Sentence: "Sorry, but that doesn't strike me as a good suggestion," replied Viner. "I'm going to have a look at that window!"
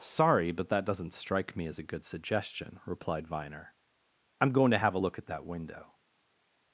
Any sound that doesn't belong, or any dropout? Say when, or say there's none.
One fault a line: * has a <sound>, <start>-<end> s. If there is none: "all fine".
all fine